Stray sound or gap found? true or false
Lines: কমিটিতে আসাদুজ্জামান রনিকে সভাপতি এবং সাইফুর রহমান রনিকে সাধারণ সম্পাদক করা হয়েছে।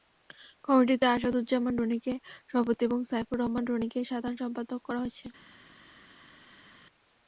false